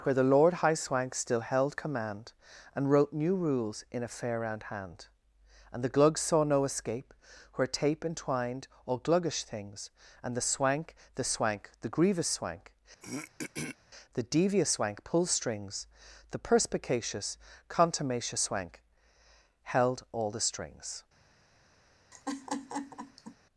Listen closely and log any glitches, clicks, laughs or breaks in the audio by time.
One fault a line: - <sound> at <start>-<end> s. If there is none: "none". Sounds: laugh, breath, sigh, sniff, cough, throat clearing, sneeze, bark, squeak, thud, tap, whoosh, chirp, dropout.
- throat clearing at 13.0-13.8 s
- laugh at 22.1-23.4 s